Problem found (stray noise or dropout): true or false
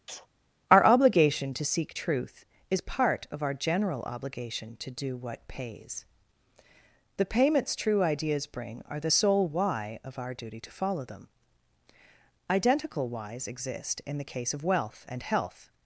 true